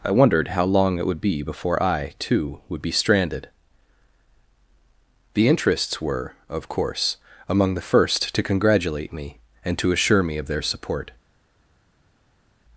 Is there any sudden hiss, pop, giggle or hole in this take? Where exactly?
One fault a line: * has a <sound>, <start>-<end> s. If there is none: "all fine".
all fine